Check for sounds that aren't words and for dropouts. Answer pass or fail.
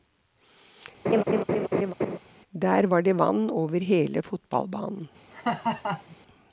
fail